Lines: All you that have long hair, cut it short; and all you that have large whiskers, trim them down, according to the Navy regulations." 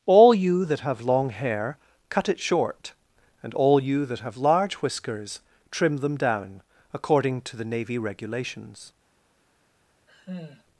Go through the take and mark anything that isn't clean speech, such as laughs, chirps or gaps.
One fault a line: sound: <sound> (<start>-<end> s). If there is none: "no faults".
sound: sigh (10.1-10.6 s)